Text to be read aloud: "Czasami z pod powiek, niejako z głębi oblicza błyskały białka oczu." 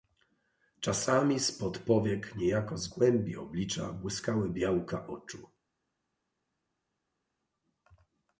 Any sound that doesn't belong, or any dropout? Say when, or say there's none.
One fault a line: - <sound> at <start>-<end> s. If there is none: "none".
none